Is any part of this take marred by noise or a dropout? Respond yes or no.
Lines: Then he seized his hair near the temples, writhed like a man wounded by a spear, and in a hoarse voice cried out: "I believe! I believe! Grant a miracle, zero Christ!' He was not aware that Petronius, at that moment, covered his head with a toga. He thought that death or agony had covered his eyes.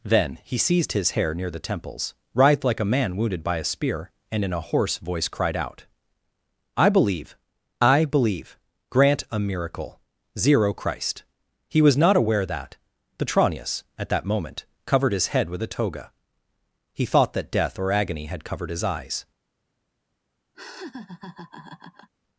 yes